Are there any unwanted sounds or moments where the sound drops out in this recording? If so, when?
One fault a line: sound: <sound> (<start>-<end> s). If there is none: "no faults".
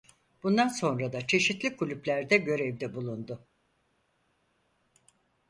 no faults